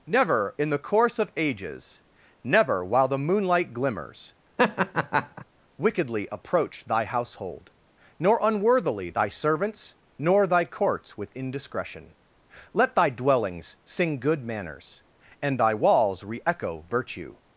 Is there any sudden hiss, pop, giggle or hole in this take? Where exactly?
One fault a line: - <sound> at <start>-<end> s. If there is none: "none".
- laugh at 4.6-5.4 s